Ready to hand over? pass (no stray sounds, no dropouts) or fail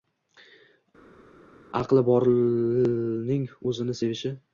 pass